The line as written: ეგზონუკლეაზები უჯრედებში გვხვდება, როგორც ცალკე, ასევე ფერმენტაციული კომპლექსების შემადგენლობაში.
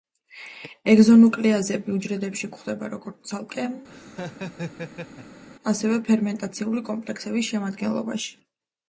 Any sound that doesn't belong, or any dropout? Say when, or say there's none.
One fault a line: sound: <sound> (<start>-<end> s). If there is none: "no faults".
sound: laugh (3.9-5.4 s)